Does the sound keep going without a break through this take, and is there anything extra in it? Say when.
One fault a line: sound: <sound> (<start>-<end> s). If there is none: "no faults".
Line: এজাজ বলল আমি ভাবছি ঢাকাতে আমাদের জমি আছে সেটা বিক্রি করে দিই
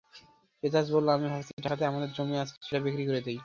no faults